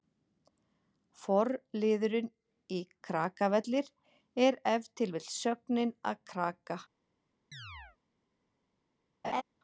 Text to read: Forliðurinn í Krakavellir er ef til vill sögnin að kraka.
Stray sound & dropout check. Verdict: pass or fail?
fail